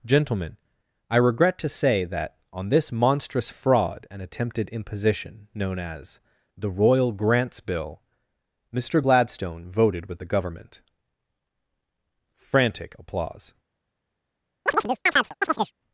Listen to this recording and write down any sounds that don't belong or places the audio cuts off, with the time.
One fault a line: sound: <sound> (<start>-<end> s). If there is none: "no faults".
sound: chirp (14.7-15.7 s)